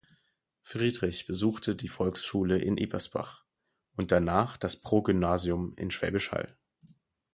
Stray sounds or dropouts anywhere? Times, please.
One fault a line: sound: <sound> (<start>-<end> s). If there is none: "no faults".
no faults